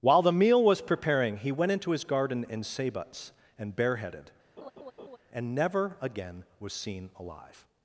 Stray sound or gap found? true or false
true